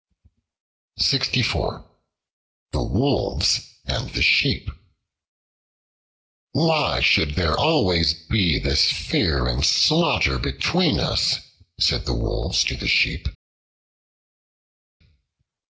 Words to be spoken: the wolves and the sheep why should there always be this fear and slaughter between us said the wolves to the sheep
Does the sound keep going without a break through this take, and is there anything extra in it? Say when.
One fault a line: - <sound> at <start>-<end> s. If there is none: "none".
none